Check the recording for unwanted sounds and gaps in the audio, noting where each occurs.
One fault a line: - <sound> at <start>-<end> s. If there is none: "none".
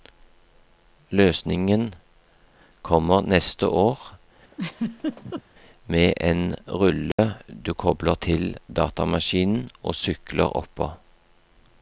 - laugh at 4.5-5.4 s
- dropout at 7.1-7.2 s